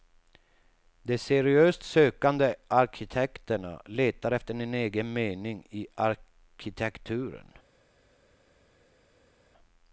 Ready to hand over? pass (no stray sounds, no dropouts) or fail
pass